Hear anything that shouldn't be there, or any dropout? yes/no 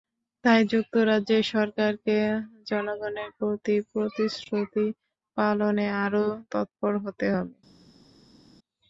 no